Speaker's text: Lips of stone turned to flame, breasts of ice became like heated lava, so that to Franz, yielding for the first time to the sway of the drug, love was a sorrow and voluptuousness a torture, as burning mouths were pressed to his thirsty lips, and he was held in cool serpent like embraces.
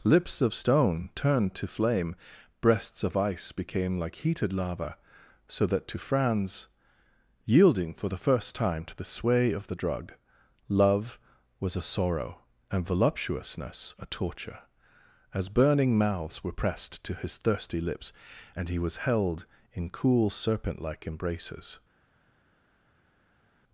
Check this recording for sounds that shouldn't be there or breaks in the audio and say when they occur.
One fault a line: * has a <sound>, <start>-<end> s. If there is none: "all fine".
all fine